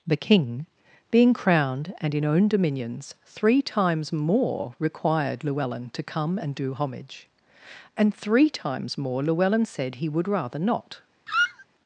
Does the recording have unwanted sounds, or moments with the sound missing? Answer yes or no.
yes